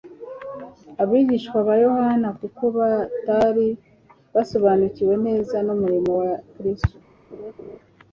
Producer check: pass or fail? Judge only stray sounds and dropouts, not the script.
fail